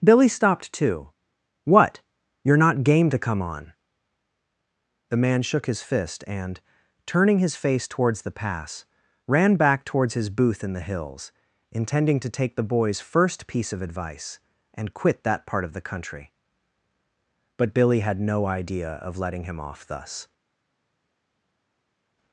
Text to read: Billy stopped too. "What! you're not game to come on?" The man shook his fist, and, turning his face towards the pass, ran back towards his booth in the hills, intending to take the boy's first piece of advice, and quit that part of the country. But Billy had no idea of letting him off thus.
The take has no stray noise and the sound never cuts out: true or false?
true